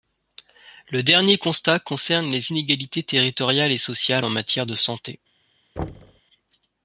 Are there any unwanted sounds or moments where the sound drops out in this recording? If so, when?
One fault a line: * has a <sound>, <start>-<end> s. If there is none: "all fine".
* has a thud, 5.8-6.2 s